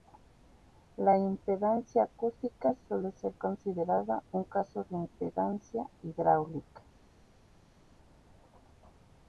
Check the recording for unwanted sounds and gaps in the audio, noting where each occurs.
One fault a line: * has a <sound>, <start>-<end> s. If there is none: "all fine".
all fine